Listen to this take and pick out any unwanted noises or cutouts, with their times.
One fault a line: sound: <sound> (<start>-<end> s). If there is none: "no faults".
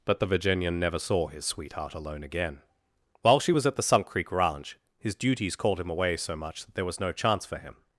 no faults